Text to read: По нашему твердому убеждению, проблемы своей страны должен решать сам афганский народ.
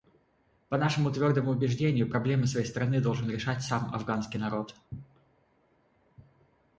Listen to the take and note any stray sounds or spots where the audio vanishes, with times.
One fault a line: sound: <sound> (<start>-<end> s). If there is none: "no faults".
no faults